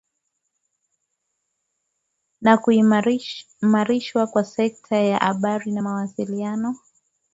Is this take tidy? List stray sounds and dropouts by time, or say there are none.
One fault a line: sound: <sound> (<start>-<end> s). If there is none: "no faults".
no faults